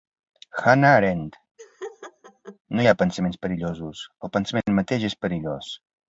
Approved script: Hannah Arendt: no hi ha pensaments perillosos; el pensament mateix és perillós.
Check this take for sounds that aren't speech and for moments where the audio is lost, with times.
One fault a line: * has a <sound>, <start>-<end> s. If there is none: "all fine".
* has a laugh, 1.6-2.6 s